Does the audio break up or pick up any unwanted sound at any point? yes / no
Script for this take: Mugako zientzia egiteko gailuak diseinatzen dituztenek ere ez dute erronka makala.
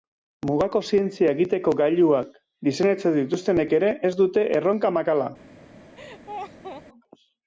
yes